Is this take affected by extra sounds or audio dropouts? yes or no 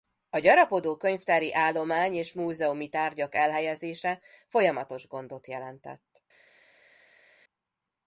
no